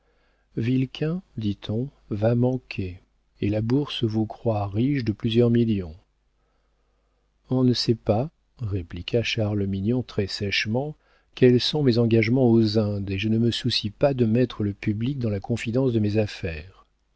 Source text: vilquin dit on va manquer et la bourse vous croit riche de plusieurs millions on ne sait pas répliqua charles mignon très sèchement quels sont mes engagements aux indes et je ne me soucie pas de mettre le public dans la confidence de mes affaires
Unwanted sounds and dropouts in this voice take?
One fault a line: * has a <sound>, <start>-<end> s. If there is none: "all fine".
all fine